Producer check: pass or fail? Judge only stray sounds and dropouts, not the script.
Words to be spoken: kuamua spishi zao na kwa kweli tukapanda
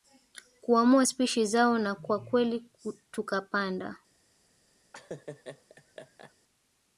fail